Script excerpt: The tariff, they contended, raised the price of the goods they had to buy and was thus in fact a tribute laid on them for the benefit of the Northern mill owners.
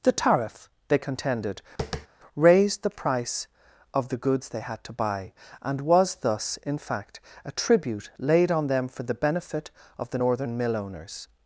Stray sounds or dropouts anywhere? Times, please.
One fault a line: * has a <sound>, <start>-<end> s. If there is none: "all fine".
* has a tap, 1.8-2.1 s